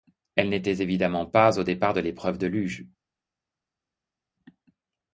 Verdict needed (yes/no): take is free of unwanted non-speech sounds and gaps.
yes